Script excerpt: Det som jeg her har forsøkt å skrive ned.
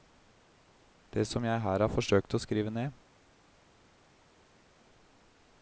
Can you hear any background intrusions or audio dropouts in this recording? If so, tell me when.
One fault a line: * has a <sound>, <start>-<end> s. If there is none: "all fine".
all fine